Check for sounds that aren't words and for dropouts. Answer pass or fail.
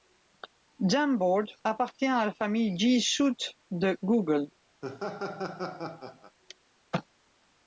fail